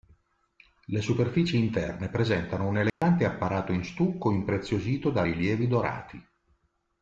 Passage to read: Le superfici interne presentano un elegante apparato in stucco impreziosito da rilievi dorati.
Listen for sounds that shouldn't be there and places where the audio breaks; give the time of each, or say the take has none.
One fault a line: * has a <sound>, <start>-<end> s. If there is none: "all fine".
* has a dropout, 2.9-3.0 s